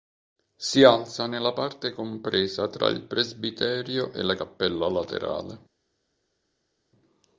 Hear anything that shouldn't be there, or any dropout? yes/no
no